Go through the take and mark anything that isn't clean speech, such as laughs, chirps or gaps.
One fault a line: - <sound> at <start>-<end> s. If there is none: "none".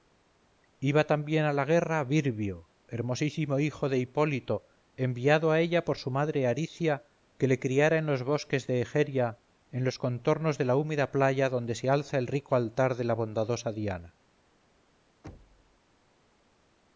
- thud at 15.2-15.8 s